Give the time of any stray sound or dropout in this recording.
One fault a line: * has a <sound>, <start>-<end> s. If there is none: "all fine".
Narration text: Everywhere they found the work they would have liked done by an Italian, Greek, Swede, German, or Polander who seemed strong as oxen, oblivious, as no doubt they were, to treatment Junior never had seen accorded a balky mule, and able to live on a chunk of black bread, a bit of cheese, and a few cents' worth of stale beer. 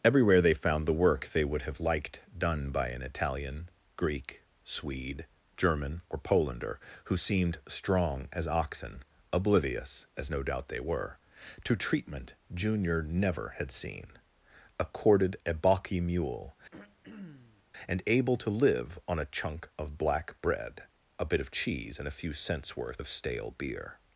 * has a throat clearing, 16.7-17.6 s